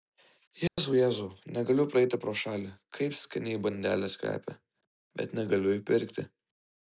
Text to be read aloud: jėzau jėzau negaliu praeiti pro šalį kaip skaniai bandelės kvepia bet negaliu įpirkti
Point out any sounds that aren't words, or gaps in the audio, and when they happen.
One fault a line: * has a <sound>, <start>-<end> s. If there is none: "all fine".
* has a dropout, 0.7-0.8 s